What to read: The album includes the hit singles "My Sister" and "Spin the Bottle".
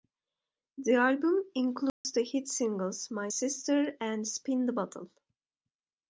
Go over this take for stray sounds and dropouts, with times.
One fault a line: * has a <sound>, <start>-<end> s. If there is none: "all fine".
* has a dropout, 1.9-2.0 s